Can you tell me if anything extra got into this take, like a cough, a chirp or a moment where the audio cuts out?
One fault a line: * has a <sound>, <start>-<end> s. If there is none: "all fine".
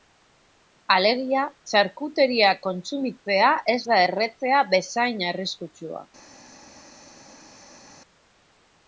all fine